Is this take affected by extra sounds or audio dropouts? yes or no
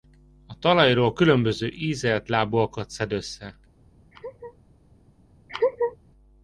yes